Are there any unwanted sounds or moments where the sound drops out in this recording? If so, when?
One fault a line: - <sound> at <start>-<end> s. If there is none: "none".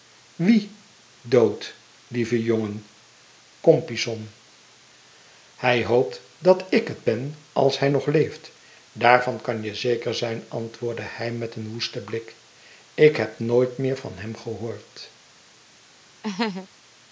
- laugh at 16.2-16.7 s